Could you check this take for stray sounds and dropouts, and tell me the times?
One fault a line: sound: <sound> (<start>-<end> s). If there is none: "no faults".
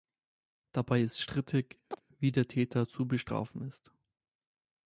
sound: chirp (1.9-2.0 s)